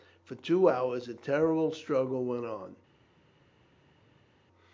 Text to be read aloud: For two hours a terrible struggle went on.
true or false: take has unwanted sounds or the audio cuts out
false